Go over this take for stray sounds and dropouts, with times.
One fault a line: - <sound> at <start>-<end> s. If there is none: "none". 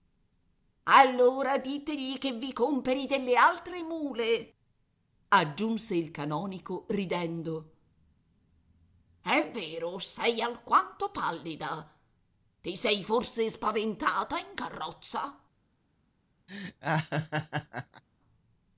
- laugh at 16.5-18.0 s